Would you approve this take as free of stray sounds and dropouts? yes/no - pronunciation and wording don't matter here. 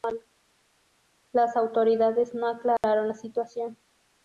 no